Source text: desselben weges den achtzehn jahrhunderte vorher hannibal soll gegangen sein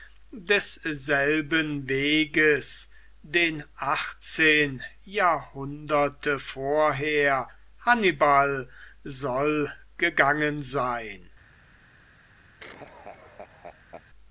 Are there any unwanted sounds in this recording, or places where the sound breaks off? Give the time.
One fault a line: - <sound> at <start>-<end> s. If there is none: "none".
- laugh at 12.6-14.0 s